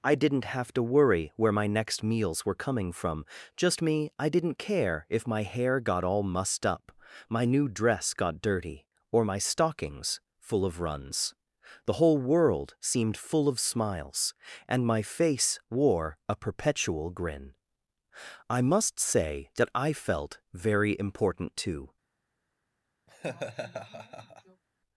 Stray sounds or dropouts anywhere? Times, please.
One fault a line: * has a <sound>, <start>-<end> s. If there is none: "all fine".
* has a laugh, 23.1-24.6 s